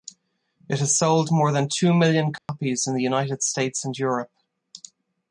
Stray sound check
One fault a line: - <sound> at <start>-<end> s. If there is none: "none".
- dropout at 2.4-2.5 s